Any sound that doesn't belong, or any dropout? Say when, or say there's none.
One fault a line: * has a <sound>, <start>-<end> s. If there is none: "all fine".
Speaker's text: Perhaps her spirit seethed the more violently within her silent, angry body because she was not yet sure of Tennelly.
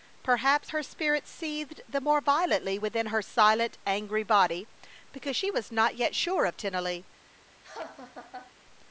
* has a laugh, 7.6-8.5 s